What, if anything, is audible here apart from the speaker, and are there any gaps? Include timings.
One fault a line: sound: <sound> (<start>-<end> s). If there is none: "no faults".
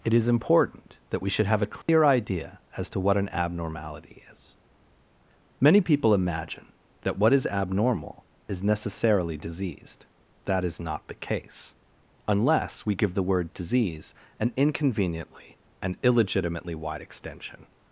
sound: dropout (1.8-1.9 s)